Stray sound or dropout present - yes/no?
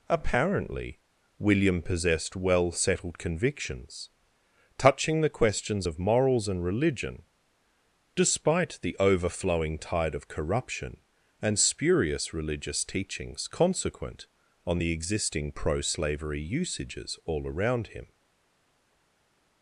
no